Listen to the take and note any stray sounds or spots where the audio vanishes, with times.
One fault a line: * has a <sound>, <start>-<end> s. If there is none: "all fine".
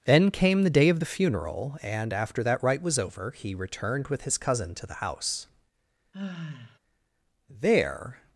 * has a sigh, 6.1-6.8 s